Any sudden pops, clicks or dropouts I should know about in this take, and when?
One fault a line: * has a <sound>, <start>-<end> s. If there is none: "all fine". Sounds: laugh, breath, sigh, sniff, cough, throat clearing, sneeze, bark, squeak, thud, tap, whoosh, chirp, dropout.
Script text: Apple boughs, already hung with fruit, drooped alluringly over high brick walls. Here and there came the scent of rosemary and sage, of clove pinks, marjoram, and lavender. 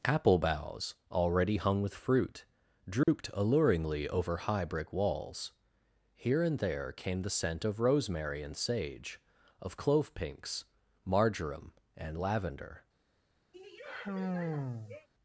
* has a dropout, 3.0-3.1 s
* has a sigh, 13.5-15.1 s